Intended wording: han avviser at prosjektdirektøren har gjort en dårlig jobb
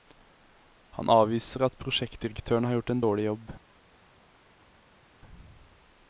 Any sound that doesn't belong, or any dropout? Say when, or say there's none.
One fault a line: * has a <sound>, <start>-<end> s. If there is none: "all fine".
all fine